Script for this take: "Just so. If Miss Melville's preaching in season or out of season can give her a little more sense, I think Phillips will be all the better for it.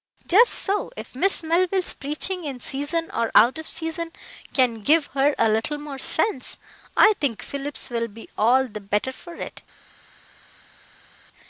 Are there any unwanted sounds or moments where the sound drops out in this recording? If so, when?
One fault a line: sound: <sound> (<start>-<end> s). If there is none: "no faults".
no faults